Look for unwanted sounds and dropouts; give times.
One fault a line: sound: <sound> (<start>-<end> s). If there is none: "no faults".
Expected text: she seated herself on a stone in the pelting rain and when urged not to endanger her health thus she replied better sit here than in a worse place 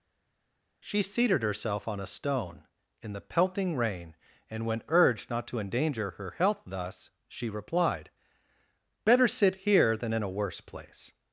no faults